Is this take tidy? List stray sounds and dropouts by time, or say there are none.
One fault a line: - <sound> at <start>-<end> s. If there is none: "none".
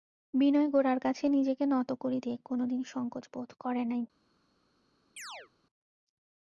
- chirp at 5.2-5.5 s